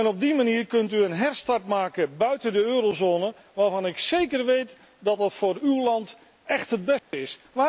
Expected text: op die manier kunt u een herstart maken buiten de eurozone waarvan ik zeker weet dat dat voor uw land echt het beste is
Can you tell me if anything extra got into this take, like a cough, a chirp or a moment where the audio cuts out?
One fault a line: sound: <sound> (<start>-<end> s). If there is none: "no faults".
sound: dropout (7.0-7.1 s)